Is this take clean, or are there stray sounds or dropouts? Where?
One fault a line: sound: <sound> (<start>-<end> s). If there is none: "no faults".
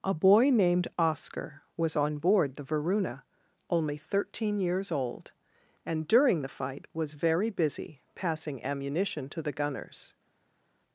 no faults